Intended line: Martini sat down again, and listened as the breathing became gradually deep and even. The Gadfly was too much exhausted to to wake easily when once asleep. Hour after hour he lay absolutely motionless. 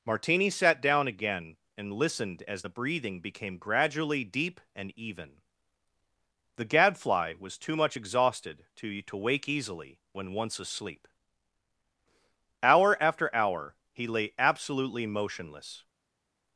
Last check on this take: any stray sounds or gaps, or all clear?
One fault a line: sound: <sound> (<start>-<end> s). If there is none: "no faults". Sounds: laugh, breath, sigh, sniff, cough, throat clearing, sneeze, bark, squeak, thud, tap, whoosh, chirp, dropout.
no faults